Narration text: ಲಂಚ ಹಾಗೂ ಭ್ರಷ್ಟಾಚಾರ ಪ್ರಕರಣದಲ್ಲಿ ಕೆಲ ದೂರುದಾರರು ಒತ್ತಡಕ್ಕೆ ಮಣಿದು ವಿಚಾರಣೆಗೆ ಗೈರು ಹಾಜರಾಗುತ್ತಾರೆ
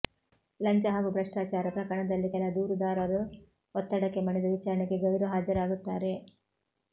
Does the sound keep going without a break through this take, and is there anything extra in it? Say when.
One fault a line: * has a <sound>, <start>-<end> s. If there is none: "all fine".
all fine